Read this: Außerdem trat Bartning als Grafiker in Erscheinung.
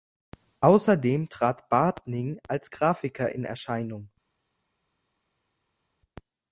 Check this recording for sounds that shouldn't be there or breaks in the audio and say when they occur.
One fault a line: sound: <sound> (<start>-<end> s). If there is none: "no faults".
no faults